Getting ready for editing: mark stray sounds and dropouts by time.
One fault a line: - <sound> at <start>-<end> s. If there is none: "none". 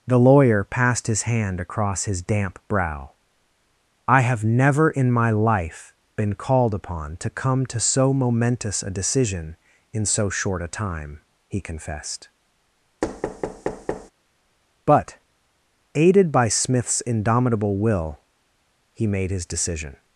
- thud at 13.0-14.1 s